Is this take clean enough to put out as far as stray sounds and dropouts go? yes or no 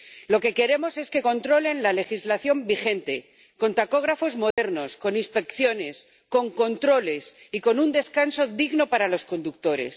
no